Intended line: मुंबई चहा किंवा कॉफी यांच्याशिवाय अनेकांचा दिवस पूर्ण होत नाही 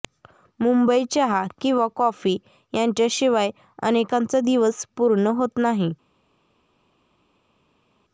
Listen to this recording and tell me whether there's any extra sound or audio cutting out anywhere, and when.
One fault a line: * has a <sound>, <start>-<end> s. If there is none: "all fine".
all fine